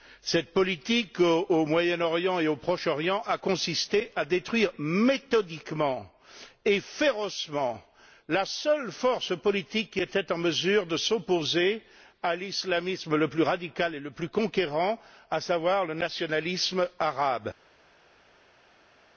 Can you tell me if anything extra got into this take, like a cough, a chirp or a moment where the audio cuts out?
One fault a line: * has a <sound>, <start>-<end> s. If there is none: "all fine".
all fine